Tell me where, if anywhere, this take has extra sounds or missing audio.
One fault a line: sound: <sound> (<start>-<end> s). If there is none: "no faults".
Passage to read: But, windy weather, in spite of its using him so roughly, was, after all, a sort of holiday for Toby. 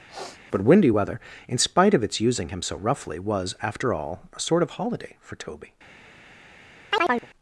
sound: sniff (0.1-0.4 s)
sound: chirp (6.9-7.3 s)